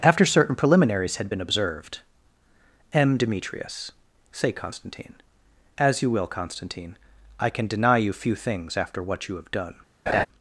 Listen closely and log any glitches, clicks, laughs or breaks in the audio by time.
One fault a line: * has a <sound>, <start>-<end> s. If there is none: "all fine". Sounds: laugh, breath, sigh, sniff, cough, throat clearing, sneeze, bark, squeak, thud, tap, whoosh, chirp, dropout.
* has a laugh, 10.1-10.3 s